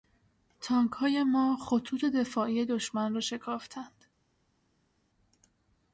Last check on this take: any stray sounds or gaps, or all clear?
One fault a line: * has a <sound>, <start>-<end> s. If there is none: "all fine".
all fine